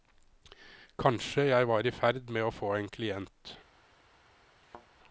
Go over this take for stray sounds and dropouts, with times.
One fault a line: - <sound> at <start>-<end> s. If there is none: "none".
- thud at 4.6-4.9 s